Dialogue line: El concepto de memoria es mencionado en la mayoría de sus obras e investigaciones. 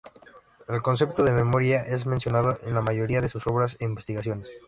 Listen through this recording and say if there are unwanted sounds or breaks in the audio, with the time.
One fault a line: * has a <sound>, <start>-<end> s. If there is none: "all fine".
all fine